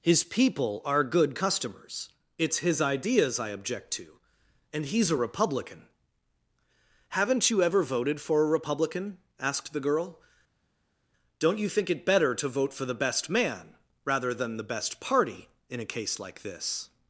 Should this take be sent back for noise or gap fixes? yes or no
no